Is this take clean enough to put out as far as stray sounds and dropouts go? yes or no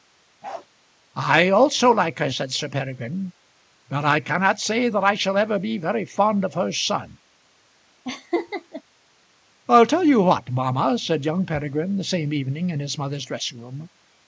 no